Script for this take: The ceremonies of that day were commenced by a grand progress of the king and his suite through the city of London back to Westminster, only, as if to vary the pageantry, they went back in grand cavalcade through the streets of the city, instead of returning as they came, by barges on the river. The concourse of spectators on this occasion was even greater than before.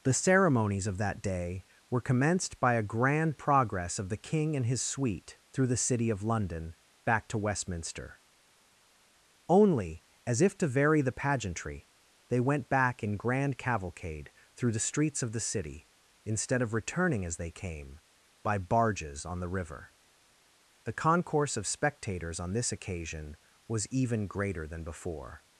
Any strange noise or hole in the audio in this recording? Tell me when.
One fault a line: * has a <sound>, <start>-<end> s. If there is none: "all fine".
all fine